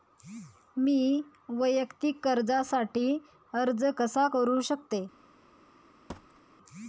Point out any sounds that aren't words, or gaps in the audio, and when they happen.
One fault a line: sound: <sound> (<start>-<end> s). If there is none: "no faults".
sound: thud (6.1-6.4 s)